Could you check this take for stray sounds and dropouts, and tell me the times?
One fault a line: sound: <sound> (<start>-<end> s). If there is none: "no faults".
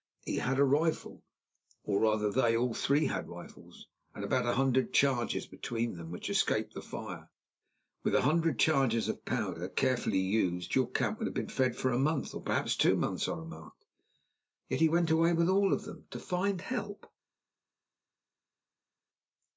no faults